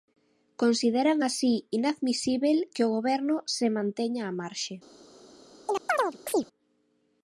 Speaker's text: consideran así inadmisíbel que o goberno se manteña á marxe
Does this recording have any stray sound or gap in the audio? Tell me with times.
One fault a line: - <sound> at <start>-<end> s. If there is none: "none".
- chirp at 5.7-6.5 s